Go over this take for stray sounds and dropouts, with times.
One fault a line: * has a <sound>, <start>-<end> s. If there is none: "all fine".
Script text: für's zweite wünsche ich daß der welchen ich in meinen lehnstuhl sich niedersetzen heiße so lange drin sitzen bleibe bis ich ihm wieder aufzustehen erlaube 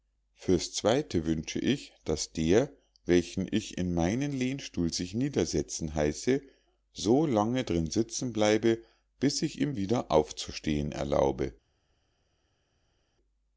all fine